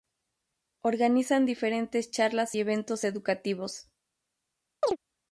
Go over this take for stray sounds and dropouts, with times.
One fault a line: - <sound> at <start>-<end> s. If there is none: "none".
- chirp at 4.8-5.0 s